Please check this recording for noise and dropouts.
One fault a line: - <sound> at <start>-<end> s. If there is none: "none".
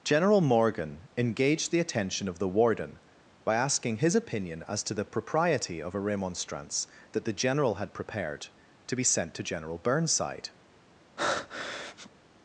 - breath at 11.2-12.1 s